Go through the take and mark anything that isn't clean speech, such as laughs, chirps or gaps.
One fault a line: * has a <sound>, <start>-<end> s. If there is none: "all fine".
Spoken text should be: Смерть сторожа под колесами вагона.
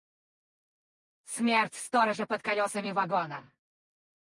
all fine